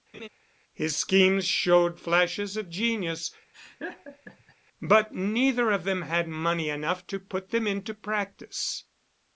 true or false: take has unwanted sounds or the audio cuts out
true